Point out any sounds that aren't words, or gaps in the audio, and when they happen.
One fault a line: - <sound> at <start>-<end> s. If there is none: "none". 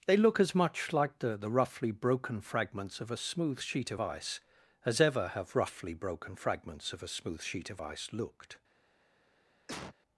- cough at 9.7-9.9 s